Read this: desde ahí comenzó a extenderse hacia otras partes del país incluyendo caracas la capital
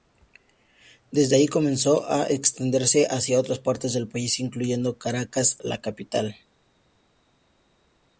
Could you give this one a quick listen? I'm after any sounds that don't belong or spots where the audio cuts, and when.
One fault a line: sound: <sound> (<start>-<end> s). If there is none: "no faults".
no faults